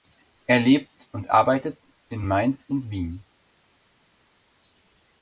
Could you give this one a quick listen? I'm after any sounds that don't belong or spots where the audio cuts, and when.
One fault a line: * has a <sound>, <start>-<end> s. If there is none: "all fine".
all fine